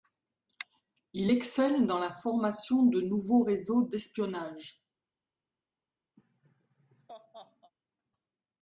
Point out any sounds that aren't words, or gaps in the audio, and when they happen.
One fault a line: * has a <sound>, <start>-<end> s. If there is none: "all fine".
* has a laugh, 6.2-7.7 s